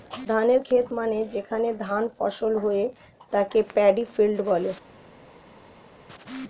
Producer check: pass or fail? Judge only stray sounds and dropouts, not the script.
pass